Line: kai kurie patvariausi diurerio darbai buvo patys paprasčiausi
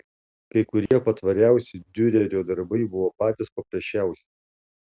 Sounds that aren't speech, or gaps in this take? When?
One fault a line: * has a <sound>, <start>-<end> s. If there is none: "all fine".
* has a dropout, 0.9-0.9 s